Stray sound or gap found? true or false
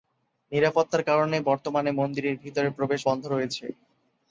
false